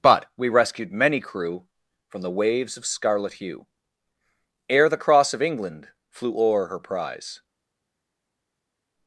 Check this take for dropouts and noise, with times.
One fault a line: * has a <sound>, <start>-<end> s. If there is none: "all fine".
all fine